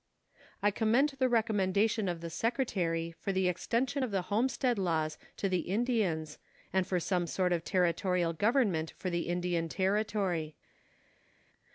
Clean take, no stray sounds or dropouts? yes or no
yes